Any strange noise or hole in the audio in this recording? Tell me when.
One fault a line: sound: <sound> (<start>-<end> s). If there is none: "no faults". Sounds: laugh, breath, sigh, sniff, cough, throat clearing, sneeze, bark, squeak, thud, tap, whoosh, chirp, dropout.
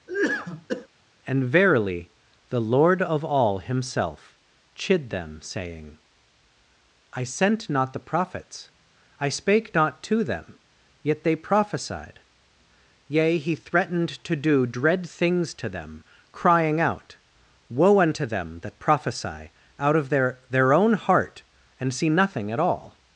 sound: cough (0.1-0.9 s)